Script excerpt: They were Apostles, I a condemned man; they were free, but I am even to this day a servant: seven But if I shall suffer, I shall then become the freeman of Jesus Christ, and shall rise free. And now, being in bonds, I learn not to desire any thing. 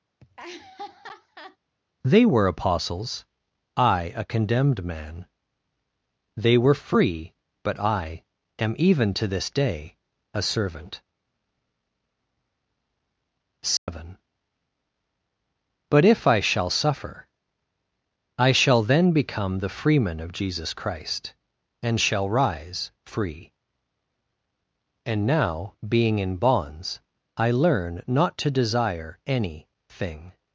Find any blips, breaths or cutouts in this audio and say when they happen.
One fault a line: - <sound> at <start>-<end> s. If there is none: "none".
- laugh at 0.2-1.6 s
- dropout at 13.8-13.9 s